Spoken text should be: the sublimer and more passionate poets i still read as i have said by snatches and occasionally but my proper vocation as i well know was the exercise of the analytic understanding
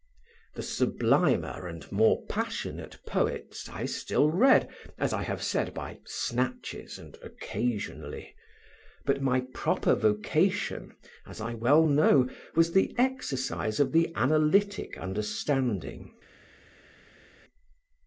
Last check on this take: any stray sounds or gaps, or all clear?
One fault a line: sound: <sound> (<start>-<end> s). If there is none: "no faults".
no faults